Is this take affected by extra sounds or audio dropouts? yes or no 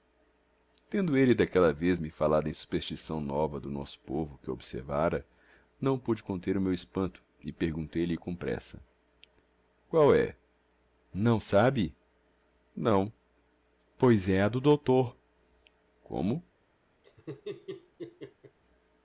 yes